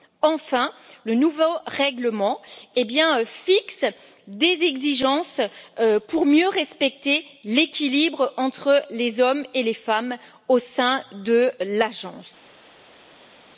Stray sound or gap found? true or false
false